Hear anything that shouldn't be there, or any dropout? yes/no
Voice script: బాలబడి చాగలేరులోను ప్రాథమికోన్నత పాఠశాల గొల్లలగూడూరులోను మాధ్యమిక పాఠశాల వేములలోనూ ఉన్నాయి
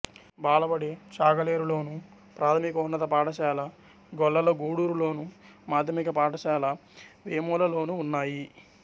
no